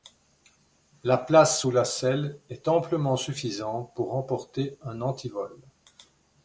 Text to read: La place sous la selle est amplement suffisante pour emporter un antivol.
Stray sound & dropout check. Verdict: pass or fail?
pass